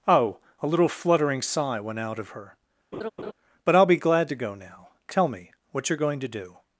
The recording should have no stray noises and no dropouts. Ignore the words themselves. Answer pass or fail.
fail